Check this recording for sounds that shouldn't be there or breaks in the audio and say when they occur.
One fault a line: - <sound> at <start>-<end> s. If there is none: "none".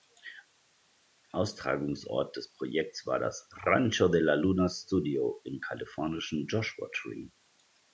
none